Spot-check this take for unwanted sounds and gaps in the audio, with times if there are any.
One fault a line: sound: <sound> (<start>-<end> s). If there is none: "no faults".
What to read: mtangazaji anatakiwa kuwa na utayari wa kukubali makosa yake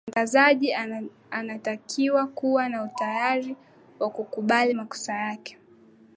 no faults